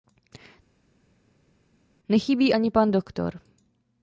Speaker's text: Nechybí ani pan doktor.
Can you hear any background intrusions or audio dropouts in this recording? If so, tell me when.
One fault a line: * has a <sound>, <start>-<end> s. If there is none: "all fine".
all fine